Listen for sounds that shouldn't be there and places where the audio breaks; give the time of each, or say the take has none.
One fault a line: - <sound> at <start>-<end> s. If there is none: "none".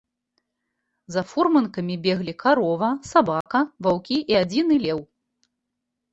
- dropout at 3.4-3.5 s